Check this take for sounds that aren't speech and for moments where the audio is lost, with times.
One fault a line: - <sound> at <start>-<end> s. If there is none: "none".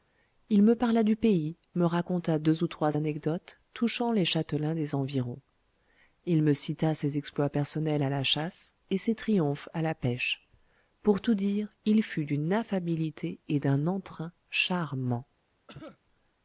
- cough at 15.7-16.0 s